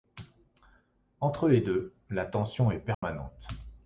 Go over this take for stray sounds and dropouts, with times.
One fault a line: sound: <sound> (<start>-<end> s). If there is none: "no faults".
sound: dropout (2.9-3.0 s)